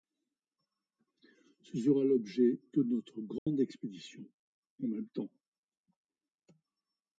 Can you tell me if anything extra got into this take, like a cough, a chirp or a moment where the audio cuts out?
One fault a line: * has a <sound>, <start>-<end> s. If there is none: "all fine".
* has a dropout, 3.4-3.5 s